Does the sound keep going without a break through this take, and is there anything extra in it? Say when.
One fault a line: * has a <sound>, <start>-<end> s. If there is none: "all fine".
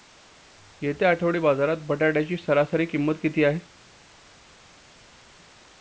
all fine